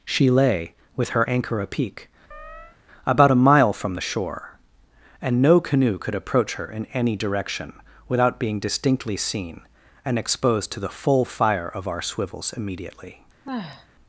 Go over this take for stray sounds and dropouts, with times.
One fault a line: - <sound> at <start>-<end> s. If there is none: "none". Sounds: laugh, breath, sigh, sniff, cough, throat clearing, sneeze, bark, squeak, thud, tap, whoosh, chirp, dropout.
- chirp at 2.3-2.8 s
- sigh at 13.4-13.9 s